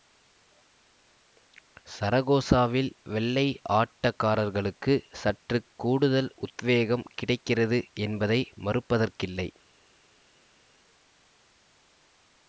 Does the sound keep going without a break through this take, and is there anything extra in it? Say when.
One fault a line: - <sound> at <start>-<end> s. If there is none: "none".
none